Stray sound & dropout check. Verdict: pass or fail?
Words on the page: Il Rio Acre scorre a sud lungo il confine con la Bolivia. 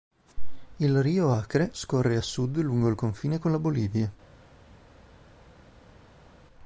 pass